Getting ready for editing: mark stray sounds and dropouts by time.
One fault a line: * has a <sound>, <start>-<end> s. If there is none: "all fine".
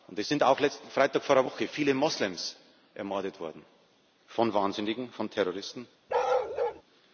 * has a bark, 6.1-6.8 s